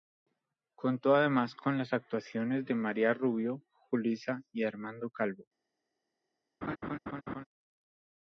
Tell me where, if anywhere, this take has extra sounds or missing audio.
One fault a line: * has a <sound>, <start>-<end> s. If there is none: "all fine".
* has a laugh, 6.6-7.4 s